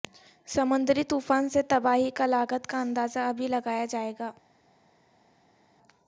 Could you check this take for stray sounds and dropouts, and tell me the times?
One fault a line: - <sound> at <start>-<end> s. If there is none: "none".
none